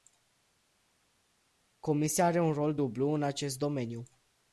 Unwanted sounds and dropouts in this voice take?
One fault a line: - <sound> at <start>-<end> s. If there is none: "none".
none